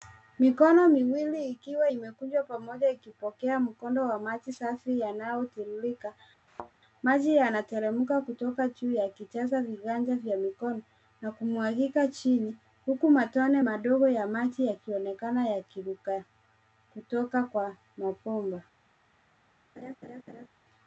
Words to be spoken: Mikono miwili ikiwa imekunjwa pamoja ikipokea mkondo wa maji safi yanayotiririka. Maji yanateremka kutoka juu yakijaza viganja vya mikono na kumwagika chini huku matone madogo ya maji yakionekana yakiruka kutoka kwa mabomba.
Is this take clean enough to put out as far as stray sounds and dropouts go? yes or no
no